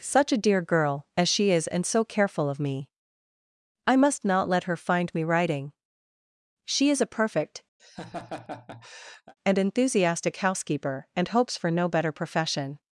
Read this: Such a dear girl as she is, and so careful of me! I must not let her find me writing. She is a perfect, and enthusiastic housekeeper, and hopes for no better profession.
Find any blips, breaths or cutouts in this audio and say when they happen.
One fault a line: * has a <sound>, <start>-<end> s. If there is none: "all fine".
* has a laugh, 7.8-9.3 s